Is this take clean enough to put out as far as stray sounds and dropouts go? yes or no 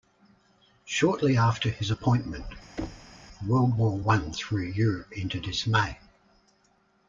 no